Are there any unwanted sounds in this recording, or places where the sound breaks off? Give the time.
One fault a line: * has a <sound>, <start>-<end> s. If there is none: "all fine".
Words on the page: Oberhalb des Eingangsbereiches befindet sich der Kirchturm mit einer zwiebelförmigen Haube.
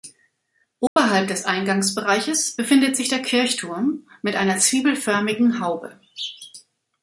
* has a dropout, 0.9-1.0 s